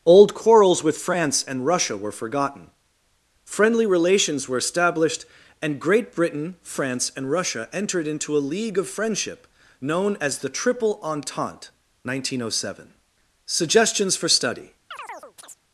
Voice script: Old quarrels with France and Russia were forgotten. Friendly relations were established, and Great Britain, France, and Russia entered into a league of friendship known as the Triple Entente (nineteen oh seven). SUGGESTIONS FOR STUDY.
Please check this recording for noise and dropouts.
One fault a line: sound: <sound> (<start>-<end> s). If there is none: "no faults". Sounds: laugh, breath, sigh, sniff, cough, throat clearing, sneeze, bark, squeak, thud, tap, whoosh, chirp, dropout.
sound: chirp (14.9-15.6 s)